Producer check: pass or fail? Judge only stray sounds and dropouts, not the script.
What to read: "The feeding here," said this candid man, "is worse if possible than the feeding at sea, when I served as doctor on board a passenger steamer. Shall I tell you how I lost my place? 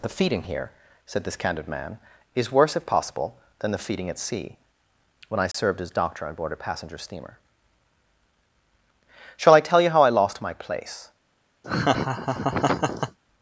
fail